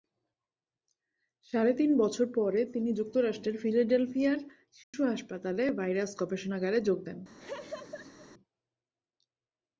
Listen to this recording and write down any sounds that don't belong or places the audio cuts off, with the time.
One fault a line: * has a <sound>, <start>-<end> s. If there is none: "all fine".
* has a dropout, 4.8-4.9 s
* has a laugh, 7.4-8.3 s